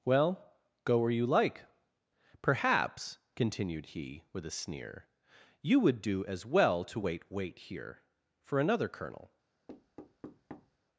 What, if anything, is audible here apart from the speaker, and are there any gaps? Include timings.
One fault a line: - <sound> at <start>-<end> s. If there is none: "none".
- thud at 9.7-10.8 s